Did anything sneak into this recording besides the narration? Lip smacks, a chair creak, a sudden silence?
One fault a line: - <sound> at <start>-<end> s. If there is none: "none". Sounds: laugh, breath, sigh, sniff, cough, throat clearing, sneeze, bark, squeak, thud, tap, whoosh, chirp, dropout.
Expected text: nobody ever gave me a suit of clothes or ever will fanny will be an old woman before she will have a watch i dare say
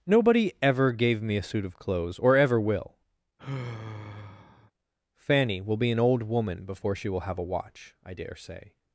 - sigh at 3.4-4.7 s